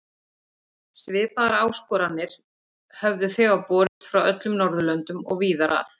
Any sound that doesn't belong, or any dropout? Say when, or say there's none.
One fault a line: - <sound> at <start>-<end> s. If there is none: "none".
- dropout at 3.9-4.0 s